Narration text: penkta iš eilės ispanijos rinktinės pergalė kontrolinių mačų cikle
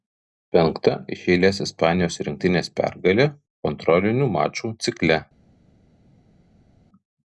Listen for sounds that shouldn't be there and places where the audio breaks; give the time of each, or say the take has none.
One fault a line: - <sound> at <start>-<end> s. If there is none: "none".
none